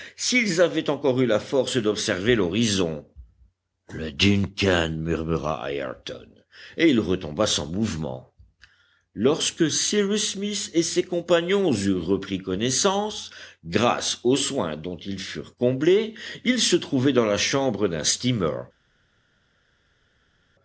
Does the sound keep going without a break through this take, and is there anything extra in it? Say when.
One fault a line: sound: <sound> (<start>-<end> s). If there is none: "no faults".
no faults